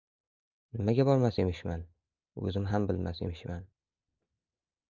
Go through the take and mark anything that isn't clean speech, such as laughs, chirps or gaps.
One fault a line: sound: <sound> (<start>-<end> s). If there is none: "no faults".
no faults